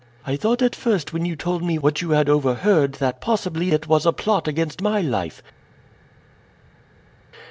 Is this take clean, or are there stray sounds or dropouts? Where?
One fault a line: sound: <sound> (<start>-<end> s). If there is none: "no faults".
no faults